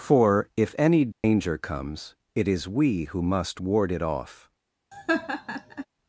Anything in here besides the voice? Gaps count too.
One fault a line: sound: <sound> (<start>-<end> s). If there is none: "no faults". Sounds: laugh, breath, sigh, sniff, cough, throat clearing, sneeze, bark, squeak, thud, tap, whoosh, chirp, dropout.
sound: dropout (1.1-1.2 s)
sound: laugh (4.9-5.9 s)